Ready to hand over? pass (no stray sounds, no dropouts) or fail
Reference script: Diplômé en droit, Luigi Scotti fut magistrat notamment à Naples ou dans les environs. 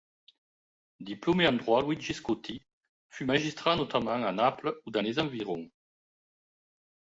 pass